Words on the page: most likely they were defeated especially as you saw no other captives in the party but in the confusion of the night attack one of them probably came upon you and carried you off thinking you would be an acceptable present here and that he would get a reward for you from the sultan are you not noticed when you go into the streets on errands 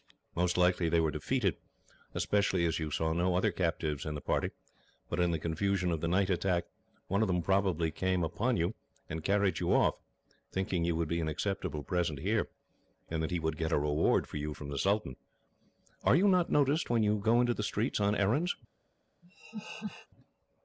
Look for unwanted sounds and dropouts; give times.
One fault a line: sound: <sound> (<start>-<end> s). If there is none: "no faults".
sound: laugh (19.2-20.1 s)